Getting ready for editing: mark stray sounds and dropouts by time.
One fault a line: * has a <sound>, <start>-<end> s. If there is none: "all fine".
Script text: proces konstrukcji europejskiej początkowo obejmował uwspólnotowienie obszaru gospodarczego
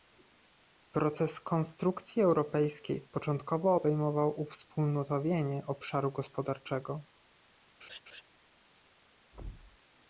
* has a laugh, 7.8-8.2 s
* has a thud, 9.3-9.8 s